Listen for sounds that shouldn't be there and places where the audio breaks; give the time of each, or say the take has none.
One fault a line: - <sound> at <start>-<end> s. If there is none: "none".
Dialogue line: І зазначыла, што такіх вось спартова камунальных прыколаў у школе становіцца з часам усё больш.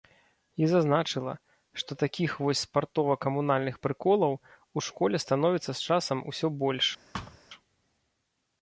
- thud at 7.1-7.4 s